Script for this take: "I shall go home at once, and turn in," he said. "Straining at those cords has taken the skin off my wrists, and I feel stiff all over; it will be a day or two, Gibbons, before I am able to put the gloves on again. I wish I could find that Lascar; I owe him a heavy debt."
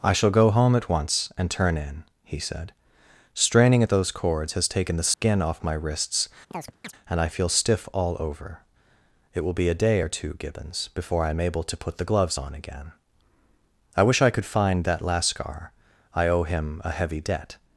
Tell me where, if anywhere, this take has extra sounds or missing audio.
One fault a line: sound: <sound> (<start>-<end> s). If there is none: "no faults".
sound: dropout (5.1-5.2 s)
sound: chirp (6.5-6.9 s)